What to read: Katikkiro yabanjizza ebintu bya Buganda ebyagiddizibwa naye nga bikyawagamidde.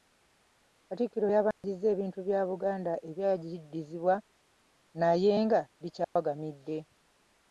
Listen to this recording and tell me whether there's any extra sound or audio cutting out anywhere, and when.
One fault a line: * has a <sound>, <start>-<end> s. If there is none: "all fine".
* has a dropout, 1.5-1.6 s
* has a dropout, 6.0-6.2 s